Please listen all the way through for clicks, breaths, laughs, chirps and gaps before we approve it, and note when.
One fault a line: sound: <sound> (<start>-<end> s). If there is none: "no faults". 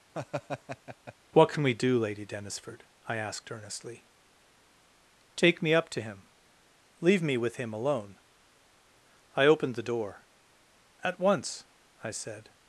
sound: laugh (0.1-1.1 s)